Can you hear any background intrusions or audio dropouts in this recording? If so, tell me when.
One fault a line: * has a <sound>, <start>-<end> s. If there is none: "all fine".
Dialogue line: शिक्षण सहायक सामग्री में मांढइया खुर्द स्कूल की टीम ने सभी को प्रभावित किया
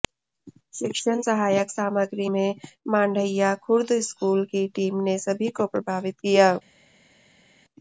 all fine